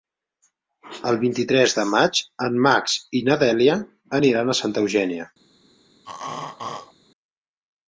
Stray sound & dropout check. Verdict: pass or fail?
fail